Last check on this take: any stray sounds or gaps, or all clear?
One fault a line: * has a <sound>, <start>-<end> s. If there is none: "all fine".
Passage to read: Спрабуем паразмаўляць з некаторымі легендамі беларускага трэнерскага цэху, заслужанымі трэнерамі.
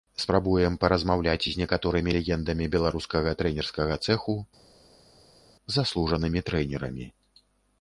all fine